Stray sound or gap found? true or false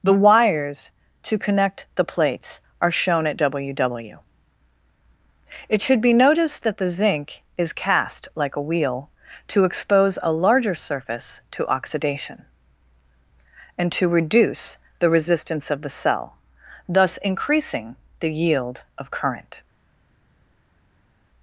false